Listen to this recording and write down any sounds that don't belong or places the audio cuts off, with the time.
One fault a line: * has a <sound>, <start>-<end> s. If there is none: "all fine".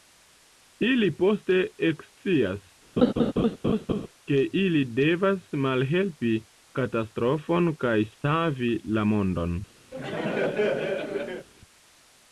* has a laugh, 3.0-4.1 s
* has a laugh, 9.9-11.5 s